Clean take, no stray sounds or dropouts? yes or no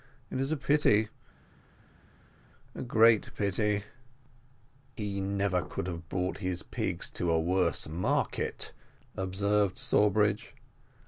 yes